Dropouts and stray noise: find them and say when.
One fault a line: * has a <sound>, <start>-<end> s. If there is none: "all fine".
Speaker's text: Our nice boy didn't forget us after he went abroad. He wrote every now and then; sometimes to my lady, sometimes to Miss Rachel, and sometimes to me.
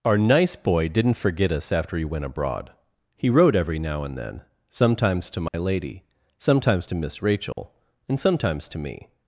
* has a dropout, 5.5-5.5 s
* has a dropout, 7.5-7.6 s